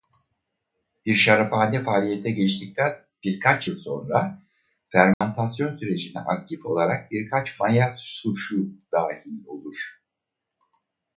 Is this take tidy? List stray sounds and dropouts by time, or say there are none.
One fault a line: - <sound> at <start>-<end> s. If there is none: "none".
- dropout at 5.1-5.2 s